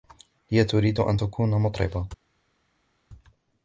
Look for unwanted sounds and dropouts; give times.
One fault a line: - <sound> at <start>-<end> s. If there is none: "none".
none